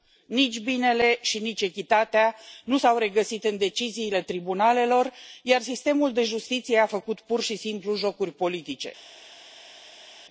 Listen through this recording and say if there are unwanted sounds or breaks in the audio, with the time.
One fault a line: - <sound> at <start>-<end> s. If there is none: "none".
none